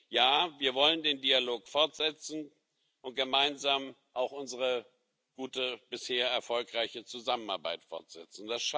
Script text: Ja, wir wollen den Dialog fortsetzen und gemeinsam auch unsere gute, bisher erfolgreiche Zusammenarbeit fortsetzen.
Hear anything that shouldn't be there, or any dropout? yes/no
no